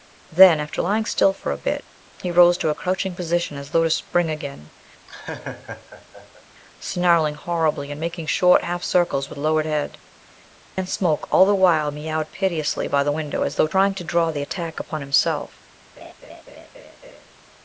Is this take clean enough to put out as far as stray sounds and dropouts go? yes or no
no